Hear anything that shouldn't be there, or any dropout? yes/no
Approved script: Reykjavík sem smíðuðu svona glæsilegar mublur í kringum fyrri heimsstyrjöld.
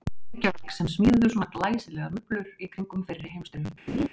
yes